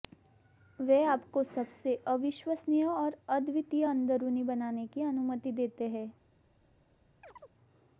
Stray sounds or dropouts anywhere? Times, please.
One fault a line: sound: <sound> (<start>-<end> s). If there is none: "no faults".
sound: chirp (7.2-7.5 s)